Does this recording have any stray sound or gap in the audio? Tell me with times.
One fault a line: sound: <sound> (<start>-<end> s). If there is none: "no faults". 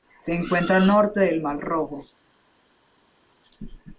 no faults